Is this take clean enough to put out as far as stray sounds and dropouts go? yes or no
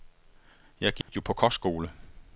no